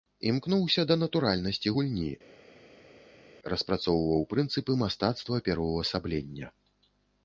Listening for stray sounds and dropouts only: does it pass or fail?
pass